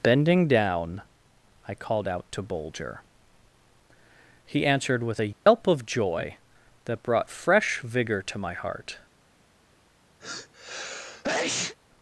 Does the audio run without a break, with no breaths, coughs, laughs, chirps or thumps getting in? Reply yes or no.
no